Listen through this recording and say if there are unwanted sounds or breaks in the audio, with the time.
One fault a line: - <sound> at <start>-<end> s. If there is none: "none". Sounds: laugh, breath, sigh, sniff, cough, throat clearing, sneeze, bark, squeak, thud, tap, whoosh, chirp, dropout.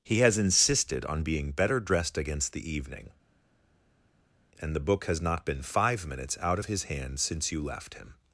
none